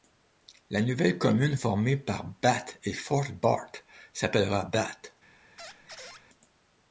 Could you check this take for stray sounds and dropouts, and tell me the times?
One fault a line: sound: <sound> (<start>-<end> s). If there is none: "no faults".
sound: squeak (5.6-6.2 s)